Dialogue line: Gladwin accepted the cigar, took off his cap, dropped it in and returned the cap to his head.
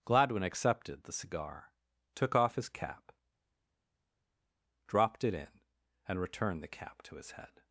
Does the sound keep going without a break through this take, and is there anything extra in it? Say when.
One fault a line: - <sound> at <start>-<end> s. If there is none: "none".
none